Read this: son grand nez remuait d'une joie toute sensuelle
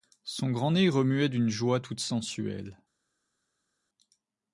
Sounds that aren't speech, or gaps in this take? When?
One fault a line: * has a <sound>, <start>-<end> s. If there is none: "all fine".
all fine